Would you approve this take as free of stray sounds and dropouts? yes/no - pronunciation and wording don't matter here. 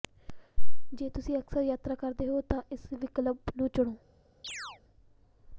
no